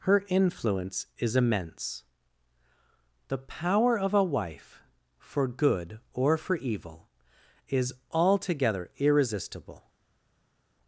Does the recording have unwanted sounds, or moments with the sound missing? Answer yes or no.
no